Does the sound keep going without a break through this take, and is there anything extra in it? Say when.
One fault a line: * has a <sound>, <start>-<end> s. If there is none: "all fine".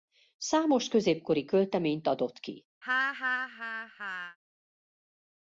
* has a laugh, 2.8-4.4 s